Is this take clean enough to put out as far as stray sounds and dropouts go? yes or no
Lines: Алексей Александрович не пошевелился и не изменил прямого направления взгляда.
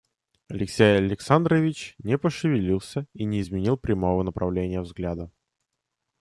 yes